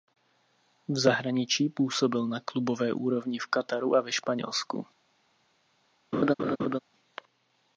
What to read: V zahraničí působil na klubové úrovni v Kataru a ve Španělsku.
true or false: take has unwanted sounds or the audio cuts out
true